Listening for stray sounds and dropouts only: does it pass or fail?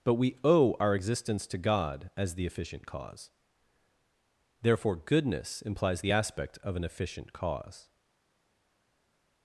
pass